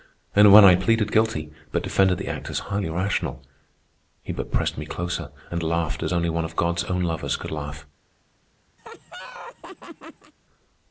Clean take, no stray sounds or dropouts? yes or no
no